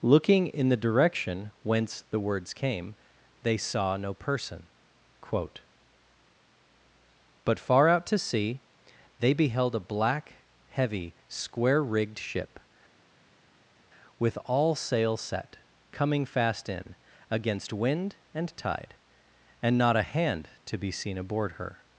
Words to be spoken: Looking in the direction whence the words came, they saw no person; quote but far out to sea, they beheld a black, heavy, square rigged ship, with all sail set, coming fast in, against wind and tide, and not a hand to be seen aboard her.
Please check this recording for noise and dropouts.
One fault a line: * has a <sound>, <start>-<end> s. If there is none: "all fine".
all fine